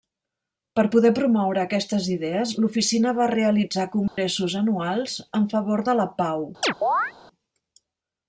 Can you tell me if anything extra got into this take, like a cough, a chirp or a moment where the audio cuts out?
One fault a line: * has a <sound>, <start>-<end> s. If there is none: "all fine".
* has a dropout, 4.1-4.2 s
* has a chirp, 6.6-7.1 s